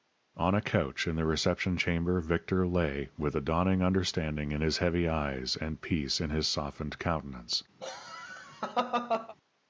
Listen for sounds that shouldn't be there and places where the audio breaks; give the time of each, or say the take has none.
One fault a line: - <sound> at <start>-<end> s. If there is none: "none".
- laugh at 7.8-9.4 s